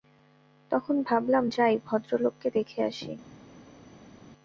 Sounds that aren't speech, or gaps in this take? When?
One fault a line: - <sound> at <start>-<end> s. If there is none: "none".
none